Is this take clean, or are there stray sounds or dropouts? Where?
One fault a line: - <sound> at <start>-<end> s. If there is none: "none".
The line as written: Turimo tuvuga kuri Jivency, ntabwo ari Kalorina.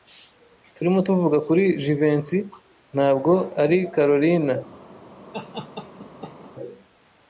- laugh at 5.3-6.5 s